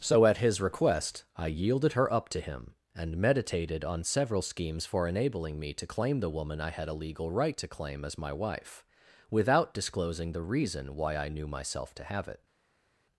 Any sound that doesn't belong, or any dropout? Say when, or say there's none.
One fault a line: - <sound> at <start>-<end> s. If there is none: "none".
none